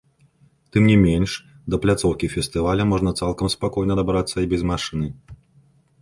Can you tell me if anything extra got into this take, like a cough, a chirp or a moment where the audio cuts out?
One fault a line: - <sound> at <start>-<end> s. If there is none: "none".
none